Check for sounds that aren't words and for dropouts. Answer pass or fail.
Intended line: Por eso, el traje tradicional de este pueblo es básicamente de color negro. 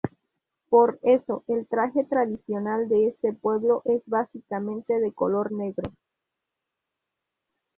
pass